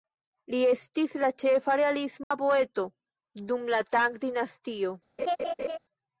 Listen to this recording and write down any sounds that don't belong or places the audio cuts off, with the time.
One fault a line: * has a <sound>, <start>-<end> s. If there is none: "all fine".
* has a dropout, 2.2-2.3 s
* has a laugh, 5.2-5.8 s